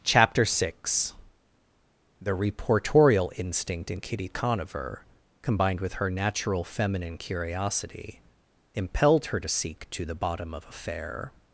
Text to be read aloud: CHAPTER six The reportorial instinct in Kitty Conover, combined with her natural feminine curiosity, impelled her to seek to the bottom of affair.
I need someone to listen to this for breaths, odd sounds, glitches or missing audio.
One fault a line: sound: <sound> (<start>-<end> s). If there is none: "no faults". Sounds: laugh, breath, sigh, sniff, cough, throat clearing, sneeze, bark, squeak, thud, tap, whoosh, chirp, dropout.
no faults